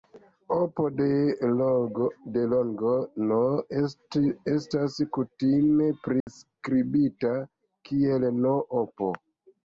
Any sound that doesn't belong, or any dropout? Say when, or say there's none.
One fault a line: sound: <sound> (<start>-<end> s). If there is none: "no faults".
sound: dropout (6.2-6.3 s)